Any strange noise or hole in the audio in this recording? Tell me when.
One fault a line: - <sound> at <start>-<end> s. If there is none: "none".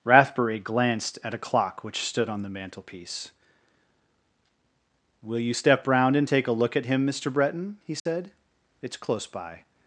- dropout at 8.0-8.1 s